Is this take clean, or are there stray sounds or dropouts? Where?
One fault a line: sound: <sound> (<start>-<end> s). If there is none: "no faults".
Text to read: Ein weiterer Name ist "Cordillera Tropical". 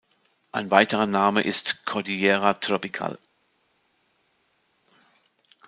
no faults